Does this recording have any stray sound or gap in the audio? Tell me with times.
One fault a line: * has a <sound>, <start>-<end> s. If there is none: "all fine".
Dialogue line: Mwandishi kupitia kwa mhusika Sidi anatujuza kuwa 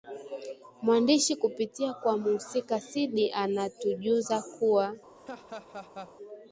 * has a laugh, 5.2-6.1 s